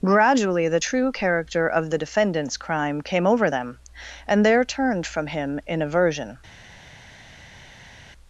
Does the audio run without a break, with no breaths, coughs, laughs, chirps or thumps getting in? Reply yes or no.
yes